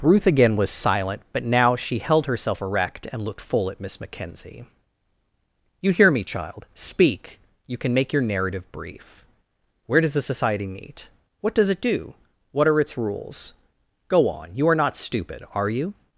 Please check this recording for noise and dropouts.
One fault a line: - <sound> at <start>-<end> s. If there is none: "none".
none